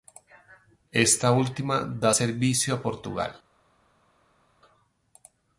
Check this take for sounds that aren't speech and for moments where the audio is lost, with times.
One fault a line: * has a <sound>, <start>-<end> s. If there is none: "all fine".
all fine